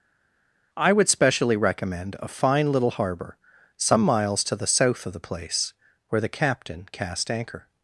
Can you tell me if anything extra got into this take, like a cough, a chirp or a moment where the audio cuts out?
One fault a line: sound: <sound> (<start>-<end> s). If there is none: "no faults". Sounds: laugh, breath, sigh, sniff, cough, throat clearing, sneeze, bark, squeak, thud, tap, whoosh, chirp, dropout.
no faults